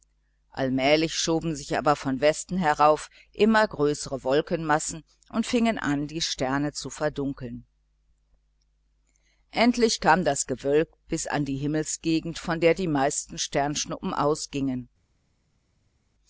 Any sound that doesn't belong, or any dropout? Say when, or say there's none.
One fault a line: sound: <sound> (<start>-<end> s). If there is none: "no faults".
no faults